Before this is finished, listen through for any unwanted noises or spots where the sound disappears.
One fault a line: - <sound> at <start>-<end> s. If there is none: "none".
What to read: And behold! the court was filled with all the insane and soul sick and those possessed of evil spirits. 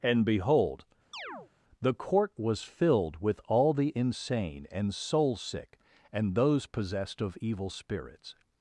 - chirp at 1.1-1.5 s